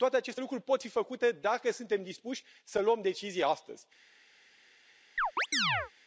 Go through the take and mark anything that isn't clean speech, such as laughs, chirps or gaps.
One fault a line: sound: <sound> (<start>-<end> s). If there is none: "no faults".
sound: chirp (5.2-5.9 s)